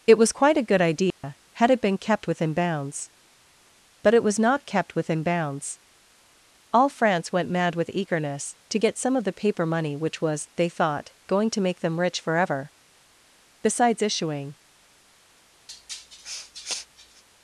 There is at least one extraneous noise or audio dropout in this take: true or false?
true